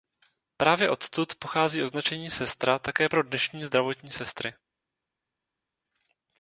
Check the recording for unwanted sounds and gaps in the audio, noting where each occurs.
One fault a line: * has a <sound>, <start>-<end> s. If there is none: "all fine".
all fine